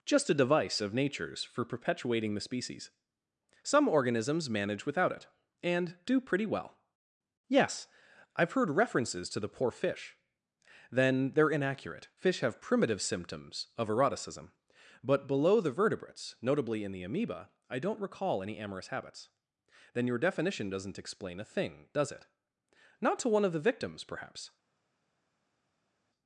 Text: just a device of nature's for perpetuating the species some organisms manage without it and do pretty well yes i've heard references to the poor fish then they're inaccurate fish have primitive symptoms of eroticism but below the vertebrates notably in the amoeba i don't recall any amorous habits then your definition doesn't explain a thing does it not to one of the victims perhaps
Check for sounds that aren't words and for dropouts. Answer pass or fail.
pass